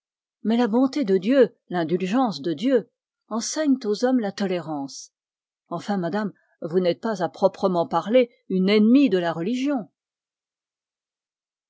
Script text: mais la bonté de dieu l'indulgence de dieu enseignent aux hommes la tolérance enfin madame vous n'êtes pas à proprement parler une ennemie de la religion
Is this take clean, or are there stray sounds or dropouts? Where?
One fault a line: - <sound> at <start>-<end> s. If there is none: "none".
none